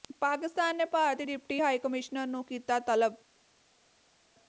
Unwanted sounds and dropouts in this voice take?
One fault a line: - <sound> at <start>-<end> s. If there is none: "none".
none